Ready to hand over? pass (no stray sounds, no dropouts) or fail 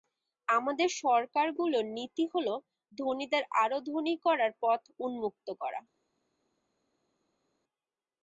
pass